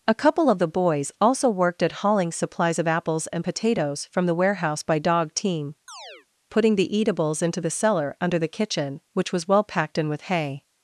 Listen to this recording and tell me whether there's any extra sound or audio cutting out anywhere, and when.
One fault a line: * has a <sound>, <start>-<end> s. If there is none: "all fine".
* has a chirp, 5.9-6.3 s